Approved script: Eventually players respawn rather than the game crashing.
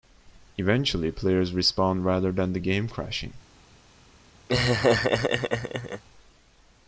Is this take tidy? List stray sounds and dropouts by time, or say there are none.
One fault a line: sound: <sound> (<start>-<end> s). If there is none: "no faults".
sound: laugh (4.5-6.0 s)